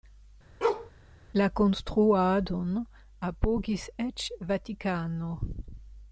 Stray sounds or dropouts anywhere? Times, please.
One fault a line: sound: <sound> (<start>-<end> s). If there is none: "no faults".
sound: bark (0.6-0.9 s)